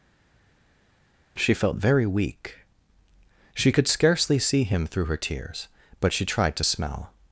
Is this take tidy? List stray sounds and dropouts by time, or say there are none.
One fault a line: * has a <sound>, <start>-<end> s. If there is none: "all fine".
all fine